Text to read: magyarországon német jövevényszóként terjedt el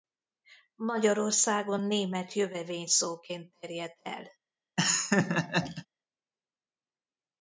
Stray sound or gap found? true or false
true